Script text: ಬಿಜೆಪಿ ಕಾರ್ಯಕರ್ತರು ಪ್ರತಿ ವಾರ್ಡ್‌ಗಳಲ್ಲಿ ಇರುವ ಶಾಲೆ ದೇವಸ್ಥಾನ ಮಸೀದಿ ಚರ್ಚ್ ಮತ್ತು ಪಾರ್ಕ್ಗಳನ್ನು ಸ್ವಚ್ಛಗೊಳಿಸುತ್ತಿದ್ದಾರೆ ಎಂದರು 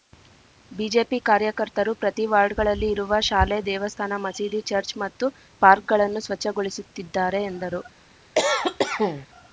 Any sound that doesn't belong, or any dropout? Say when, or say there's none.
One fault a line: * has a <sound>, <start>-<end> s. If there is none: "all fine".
* has a cough, 8.3-9.3 s